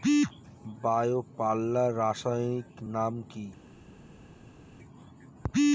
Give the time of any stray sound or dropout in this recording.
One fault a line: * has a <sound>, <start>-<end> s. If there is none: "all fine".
all fine